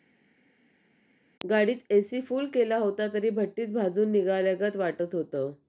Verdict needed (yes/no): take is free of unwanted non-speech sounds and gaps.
yes